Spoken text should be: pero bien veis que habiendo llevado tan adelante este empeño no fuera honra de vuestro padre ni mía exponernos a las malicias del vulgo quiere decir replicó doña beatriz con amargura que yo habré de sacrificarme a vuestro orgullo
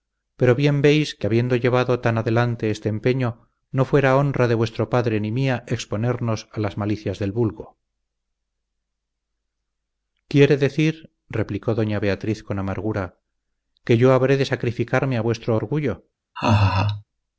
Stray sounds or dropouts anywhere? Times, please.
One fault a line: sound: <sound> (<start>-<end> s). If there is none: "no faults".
sound: laugh (16.4-17.0 s)